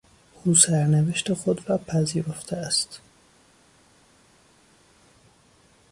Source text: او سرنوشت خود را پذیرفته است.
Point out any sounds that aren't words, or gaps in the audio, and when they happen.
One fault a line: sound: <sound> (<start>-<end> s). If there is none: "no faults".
no faults